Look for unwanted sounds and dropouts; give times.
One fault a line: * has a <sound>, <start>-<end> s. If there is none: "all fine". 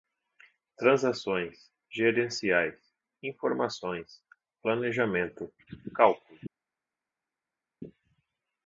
all fine